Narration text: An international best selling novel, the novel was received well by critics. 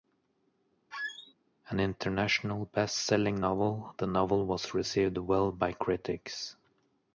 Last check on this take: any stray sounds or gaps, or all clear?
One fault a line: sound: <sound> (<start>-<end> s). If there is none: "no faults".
sound: squeak (0.9-1.3 s)